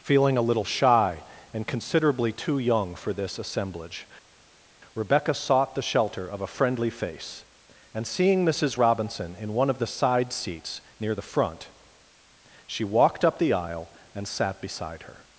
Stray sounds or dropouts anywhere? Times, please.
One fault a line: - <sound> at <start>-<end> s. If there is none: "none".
none